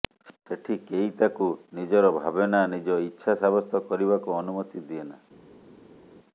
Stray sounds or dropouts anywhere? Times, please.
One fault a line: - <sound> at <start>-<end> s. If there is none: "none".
none